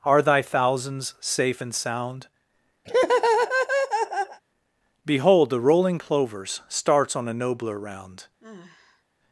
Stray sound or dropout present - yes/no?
yes